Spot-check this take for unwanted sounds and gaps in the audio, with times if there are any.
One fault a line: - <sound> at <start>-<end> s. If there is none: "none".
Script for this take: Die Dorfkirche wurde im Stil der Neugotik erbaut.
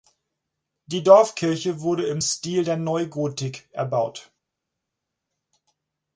none